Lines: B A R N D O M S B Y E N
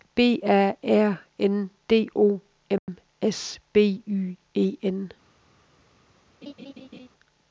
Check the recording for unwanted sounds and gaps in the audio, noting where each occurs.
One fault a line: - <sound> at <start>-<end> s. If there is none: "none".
- dropout at 2.8-2.9 s
- laugh at 6.4-7.1 s